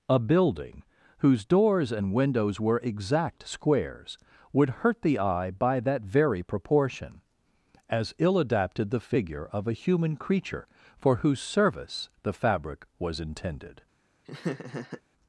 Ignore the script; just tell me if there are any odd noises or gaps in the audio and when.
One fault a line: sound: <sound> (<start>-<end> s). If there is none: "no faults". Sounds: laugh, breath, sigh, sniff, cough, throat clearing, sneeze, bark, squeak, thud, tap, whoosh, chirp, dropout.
sound: laugh (14.2-15.0 s)